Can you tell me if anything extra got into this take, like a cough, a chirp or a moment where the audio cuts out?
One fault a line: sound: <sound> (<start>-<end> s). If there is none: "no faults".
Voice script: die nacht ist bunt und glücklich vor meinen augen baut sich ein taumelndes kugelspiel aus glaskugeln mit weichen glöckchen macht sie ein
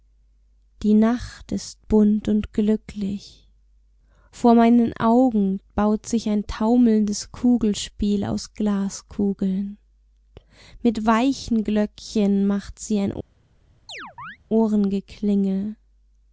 sound: chirp (13.9-14.4 s)